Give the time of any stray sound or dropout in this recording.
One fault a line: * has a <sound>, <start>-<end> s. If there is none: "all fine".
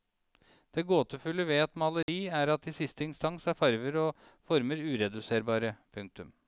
* has a dropout, 2.0-2.1 s